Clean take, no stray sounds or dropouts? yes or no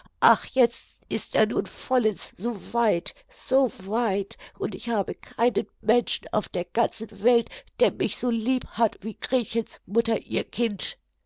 yes